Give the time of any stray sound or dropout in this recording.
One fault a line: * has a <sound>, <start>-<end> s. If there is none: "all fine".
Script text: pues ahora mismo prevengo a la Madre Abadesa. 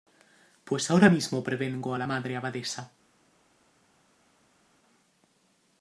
all fine